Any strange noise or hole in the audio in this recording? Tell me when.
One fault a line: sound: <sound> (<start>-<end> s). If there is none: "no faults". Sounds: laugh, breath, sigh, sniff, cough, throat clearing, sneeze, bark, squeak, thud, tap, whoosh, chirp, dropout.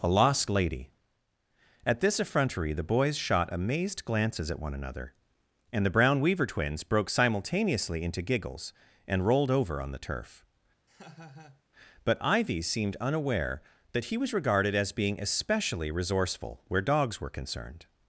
sound: laugh (10.9-11.6 s)